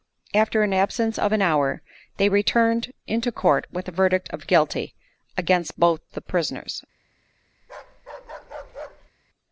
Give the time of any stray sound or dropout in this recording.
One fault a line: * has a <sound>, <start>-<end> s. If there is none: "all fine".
* has a bark, 7.6-9.1 s